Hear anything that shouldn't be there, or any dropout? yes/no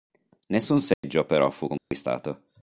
yes